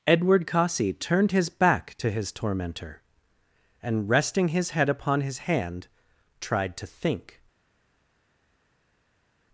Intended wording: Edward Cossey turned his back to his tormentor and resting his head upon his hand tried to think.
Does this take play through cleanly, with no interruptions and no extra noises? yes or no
yes